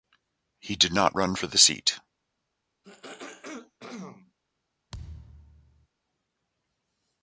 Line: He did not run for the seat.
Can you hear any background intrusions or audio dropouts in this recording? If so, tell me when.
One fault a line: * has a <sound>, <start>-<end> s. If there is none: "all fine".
* has a throat clearing, 2.8-4.3 s
* has a thud, 4.9-5.9 s